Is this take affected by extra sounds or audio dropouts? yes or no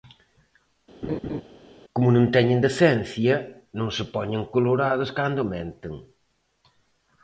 yes